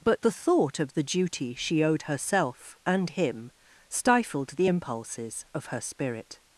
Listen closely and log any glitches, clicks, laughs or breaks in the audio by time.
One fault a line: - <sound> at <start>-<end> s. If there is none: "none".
none